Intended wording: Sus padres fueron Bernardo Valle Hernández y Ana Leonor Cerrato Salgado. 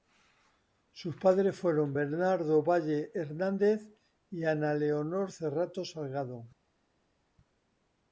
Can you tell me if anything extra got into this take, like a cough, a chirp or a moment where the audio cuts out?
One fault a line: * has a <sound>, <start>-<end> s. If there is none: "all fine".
all fine